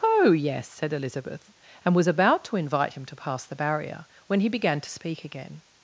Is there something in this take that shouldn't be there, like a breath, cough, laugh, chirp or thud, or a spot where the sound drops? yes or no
no